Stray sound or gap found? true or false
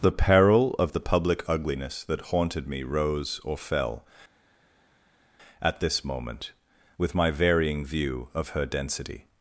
false